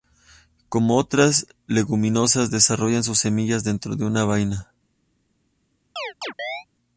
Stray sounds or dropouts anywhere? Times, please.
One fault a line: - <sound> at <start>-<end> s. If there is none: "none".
- chirp at 6.0-6.7 s